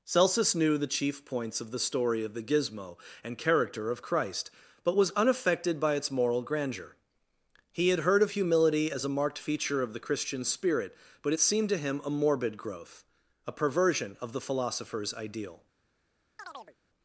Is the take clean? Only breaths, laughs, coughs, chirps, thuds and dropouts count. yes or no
no